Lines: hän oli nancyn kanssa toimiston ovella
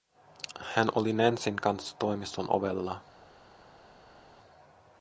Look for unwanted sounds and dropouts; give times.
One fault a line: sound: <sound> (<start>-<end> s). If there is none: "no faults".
no faults